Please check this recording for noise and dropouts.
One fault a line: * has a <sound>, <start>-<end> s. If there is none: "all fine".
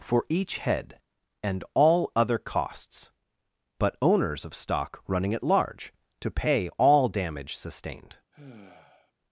* has a sigh, 8.3-9.1 s